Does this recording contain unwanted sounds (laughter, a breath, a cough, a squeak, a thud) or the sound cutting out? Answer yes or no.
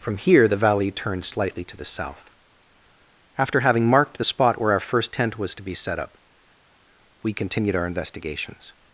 no